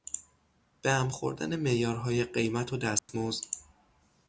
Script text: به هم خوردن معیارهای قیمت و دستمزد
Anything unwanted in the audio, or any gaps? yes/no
yes